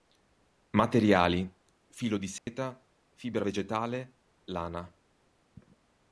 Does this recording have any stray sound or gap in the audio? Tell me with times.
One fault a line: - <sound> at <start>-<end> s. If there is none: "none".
- dropout at 2.4-2.5 s